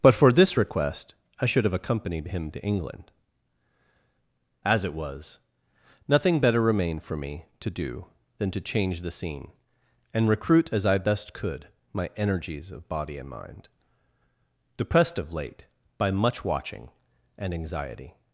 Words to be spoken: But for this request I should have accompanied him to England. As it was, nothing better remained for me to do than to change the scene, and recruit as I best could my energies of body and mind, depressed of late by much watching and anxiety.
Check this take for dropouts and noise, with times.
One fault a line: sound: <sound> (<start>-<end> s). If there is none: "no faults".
no faults